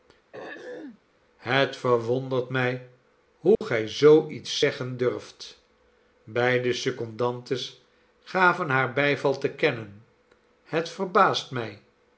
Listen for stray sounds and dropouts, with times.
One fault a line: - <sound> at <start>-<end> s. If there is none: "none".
- throat clearing at 0.3-1.0 s
- dropout at 3.5-3.6 s